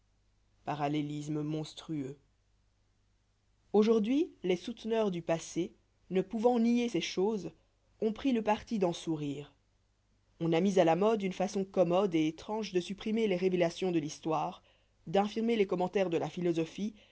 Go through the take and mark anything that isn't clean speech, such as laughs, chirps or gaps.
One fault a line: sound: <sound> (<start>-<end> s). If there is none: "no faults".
no faults